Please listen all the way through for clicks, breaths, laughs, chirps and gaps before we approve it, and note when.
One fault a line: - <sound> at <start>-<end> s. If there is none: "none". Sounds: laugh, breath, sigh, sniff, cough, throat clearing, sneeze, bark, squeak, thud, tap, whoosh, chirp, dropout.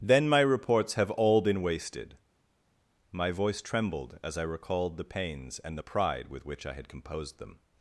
none